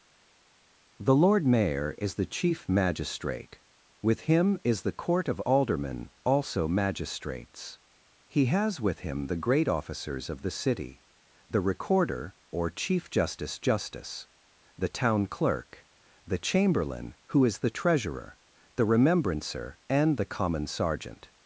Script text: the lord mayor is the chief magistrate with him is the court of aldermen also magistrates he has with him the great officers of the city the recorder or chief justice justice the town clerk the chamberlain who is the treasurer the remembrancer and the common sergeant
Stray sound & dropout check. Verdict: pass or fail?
pass